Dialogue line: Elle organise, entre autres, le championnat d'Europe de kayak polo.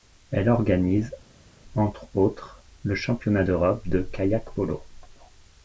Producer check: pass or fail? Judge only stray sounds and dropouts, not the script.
pass